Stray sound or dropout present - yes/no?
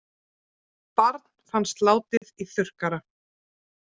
yes